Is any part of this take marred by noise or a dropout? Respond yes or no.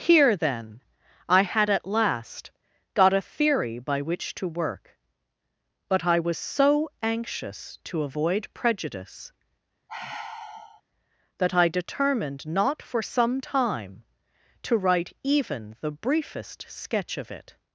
yes